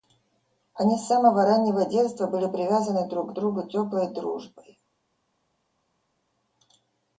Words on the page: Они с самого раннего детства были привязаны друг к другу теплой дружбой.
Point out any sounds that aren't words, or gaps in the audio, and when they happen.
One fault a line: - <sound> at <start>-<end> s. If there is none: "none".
none